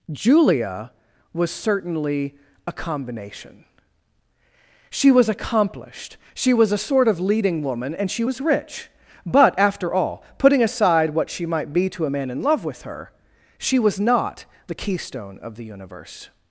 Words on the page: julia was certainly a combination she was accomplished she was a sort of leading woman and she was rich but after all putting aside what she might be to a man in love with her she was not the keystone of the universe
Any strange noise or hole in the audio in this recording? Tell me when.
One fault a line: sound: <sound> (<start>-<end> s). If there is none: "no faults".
no faults